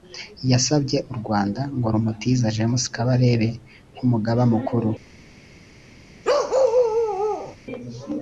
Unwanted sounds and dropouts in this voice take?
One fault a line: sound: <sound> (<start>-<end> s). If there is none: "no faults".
sound: bark (6.2-7.6 s)